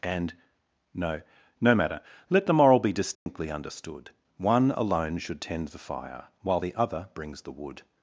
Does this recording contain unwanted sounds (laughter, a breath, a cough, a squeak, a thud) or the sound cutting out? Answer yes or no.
yes